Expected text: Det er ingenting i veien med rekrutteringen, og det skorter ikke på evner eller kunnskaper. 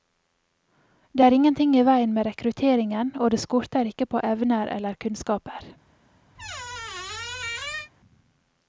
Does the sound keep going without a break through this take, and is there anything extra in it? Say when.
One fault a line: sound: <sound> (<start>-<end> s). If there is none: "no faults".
sound: squeak (6.3-7.9 s)